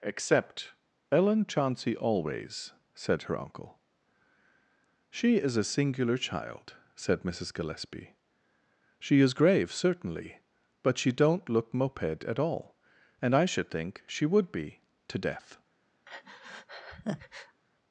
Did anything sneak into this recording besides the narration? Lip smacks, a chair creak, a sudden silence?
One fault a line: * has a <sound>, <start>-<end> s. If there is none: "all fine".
* has a breath, 16.0-17.6 s